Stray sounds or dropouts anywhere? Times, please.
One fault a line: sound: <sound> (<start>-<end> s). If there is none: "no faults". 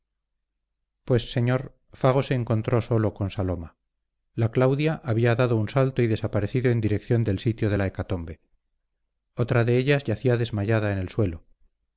no faults